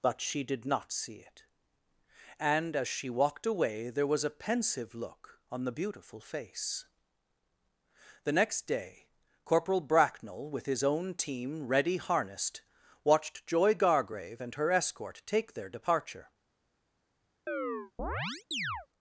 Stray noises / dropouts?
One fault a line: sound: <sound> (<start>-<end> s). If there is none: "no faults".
sound: chirp (17.5-18.9 s)